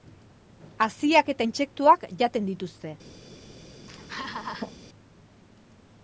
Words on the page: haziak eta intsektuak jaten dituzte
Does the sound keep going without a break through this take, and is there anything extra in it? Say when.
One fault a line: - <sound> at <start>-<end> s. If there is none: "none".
- laugh at 3.8-4.7 s